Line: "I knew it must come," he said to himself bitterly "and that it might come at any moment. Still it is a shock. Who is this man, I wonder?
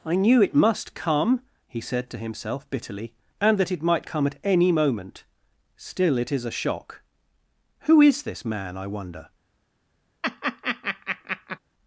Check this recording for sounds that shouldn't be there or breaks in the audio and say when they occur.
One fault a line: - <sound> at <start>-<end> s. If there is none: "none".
- laugh at 10.2-11.6 s